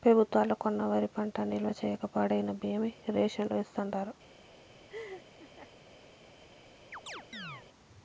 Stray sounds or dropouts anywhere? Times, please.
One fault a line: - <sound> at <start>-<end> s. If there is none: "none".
- laugh at 4.9-5.7 s
- chirp at 6.9-7.7 s